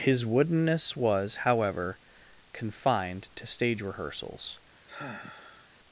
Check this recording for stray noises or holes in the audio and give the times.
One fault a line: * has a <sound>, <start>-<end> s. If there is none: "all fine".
* has a sigh, 4.9-5.7 s